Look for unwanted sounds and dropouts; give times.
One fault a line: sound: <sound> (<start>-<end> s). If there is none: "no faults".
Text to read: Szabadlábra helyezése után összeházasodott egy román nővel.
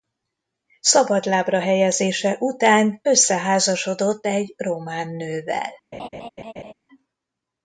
sound: laugh (5.9-6.7 s)